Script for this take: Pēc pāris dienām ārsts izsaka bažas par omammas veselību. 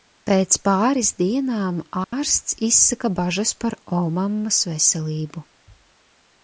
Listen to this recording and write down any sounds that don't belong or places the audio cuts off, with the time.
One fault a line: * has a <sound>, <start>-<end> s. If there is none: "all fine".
* has a dropout, 2.0-2.1 s